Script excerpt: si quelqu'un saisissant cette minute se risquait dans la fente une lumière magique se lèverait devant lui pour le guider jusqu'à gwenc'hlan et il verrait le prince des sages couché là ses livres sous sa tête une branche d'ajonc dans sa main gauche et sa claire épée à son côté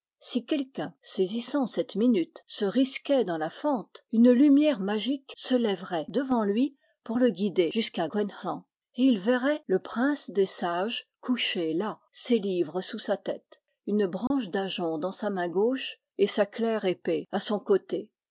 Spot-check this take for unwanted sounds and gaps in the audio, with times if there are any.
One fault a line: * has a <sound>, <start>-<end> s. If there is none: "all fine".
* has a dropout, 14.3-14.3 s